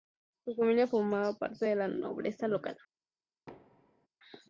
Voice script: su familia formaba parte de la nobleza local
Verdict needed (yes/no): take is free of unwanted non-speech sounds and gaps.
no